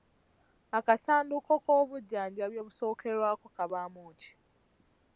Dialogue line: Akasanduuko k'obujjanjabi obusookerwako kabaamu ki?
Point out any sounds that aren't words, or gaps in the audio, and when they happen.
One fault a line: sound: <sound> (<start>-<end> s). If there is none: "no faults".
no faults